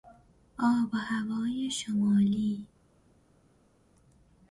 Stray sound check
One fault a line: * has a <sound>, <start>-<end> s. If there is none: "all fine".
all fine